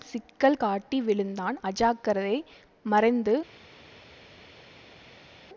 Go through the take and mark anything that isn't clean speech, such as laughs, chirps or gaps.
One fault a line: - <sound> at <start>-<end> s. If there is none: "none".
none